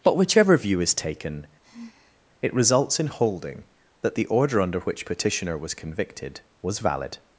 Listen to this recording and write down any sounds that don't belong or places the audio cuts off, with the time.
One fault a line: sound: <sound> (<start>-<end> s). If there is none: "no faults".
sound: sigh (1.6-2.2 s)